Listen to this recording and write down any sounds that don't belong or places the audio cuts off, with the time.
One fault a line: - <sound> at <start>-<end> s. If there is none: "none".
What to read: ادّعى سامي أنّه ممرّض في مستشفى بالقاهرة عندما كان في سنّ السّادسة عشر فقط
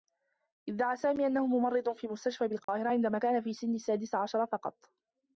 - dropout at 2.6-2.7 s